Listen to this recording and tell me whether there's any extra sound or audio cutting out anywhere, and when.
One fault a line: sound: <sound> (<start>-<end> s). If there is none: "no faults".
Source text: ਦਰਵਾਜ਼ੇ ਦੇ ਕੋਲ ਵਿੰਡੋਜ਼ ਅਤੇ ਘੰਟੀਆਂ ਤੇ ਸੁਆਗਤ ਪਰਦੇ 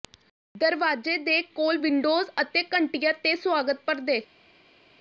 no faults